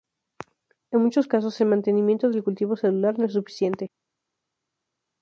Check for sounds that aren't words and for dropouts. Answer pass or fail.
pass